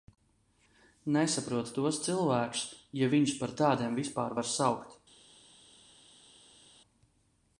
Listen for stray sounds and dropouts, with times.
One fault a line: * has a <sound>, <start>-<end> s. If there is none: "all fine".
all fine